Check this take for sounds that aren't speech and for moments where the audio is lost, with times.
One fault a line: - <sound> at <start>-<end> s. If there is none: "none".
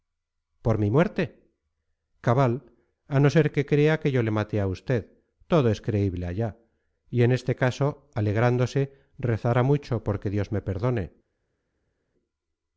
none